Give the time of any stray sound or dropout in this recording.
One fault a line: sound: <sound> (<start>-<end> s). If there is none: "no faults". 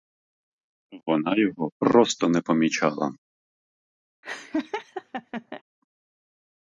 sound: laugh (4.2-5.6 s)